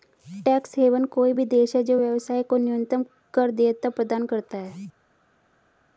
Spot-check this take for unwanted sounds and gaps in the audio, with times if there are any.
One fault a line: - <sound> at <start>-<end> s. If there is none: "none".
none